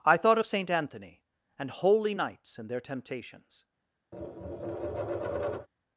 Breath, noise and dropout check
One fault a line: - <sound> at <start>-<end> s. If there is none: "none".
- tap at 4.1-5.7 s